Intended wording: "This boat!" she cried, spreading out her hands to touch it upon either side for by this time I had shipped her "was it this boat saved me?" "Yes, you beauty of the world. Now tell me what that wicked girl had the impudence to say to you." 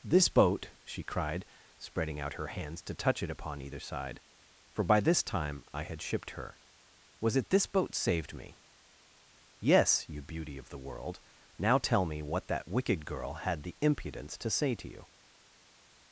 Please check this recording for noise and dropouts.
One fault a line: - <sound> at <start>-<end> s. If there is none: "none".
none